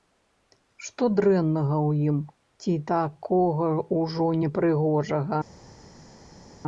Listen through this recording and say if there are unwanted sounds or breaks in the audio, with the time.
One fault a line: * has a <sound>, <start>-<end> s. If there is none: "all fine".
all fine